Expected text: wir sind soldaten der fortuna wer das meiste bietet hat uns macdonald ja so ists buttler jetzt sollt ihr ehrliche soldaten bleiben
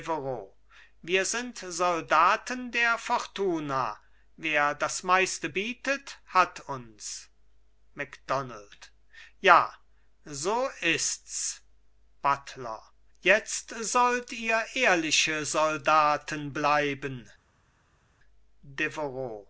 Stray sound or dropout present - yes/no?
no